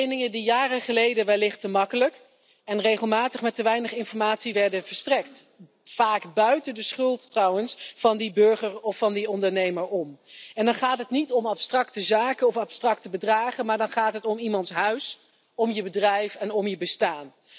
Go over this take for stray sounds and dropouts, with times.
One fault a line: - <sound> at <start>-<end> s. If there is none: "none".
none